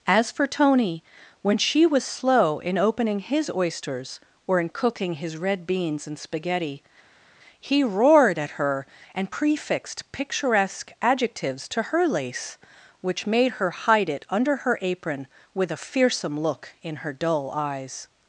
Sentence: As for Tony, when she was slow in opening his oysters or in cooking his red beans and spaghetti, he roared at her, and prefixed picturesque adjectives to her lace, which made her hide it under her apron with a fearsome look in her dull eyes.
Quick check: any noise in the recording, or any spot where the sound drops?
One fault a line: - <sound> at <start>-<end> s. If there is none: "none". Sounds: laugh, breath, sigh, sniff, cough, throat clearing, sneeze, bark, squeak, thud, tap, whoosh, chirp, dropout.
none